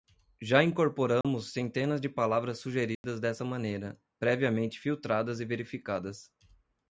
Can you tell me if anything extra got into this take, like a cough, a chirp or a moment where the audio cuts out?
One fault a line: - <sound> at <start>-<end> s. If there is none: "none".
- dropout at 1.2-1.2 s
- dropout at 3.0-3.0 s